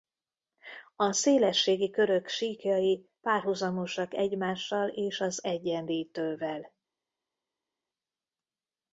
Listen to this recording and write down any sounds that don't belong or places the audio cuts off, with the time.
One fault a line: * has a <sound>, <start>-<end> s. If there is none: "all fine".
all fine